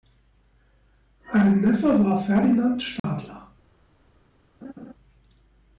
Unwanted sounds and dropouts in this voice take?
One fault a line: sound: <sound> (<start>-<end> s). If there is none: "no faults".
sound: dropout (3.0-3.0 s)
sound: laugh (4.6-4.9 s)